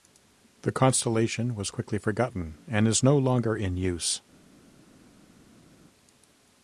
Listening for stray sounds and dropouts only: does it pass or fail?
pass